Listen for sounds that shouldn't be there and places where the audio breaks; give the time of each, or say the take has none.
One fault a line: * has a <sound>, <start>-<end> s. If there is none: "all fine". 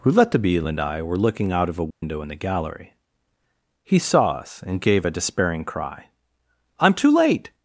* has a dropout, 1.9-2.0 s